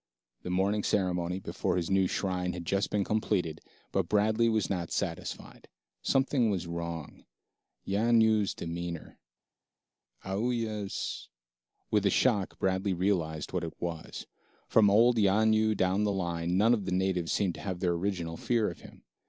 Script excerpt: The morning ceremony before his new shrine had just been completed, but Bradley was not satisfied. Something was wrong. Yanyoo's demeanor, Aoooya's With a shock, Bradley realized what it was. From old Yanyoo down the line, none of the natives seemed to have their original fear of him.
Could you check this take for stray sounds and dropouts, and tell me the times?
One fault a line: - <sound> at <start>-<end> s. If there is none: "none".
none